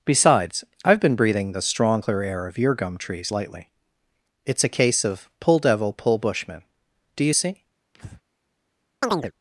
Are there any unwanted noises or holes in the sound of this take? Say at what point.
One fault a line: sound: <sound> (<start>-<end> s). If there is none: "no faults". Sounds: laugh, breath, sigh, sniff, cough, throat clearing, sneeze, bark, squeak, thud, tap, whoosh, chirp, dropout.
sound: breath (7.9-8.2 s)
sound: chirp (9.0-9.3 s)